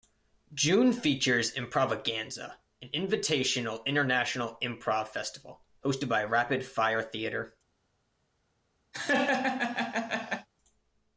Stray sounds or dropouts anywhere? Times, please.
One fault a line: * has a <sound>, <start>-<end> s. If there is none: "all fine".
* has a laugh, 8.9-10.5 s